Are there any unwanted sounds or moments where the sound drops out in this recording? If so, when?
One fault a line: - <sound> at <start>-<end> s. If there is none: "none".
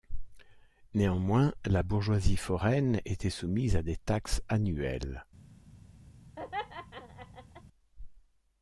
- laugh at 6.4-7.6 s